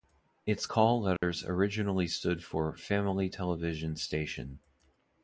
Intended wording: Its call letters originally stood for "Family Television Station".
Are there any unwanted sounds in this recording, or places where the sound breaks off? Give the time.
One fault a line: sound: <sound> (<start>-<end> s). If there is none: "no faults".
sound: dropout (1.2-1.2 s)